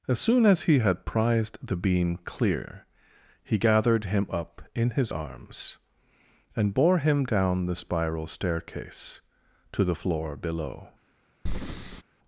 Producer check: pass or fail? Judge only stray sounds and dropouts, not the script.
fail